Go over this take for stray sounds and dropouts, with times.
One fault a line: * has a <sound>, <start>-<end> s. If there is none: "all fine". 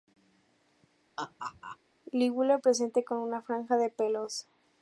* has a laugh, 1.2-1.8 s